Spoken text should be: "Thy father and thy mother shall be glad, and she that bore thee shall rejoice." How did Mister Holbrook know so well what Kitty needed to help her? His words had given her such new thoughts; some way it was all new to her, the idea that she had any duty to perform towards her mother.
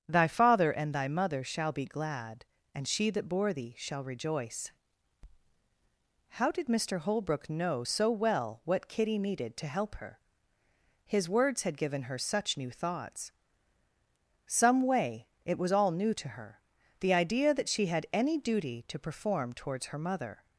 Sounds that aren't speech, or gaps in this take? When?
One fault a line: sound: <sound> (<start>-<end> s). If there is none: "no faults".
no faults